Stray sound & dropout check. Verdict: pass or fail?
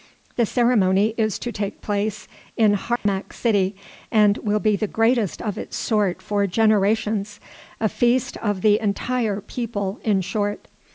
fail